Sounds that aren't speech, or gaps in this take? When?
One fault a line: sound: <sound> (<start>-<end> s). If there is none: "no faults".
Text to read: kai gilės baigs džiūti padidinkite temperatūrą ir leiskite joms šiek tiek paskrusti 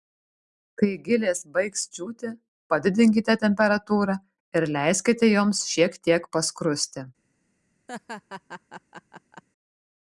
sound: laugh (7.9-9.4 s)